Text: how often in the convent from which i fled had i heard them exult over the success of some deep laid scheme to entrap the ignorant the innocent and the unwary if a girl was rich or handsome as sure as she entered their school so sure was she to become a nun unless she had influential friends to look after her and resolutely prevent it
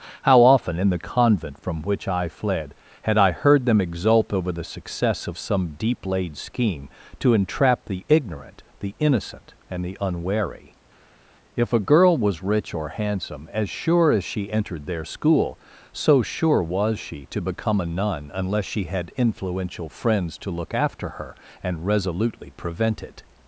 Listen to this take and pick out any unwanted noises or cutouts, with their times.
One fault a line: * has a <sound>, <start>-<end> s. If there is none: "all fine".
all fine